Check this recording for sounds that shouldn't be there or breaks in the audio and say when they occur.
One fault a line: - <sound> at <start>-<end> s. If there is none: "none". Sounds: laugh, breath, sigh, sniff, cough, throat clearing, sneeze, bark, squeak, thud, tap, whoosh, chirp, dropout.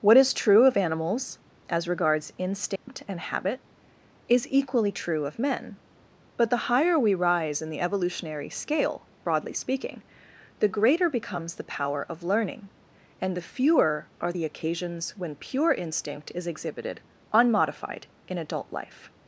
- dropout at 2.8-2.9 s